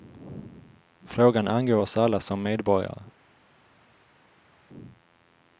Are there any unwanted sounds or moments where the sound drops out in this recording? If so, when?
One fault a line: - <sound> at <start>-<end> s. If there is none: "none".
none